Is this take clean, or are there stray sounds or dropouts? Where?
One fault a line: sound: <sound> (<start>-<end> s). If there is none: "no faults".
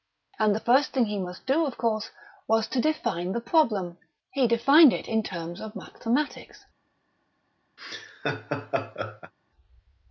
sound: laugh (7.8-9.3 s)